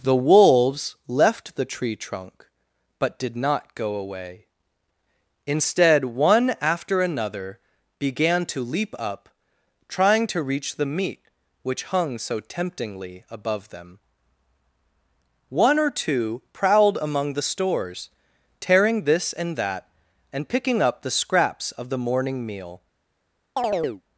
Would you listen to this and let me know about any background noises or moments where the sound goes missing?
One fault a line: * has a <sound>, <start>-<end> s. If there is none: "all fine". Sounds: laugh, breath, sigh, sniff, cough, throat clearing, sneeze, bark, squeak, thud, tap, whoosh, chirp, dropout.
* has a chirp, 23.6-24.0 s